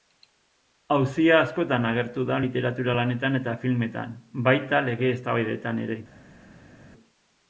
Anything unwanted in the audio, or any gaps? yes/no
no